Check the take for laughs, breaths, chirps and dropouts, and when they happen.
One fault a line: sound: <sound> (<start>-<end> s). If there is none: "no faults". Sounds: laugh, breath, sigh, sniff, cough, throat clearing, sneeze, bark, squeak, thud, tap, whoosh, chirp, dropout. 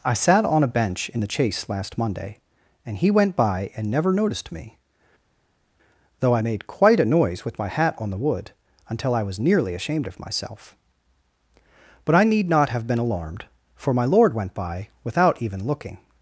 no faults